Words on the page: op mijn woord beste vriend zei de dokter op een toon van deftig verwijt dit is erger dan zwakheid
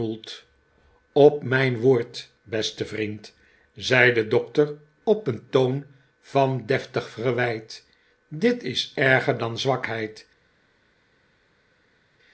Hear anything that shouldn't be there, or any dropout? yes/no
no